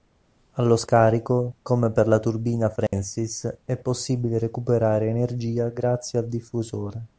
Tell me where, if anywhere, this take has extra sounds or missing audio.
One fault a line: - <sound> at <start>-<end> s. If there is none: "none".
- dropout at 2.9-2.9 s